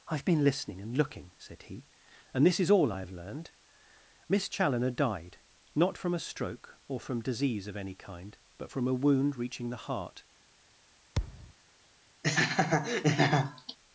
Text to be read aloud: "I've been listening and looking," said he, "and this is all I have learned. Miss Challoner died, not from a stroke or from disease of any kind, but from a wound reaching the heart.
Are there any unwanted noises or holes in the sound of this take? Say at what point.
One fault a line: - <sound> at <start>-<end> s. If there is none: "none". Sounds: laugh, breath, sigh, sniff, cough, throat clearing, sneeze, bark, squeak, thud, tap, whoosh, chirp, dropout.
- thud at 11.2-11.5 s
- laugh at 12.2-13.8 s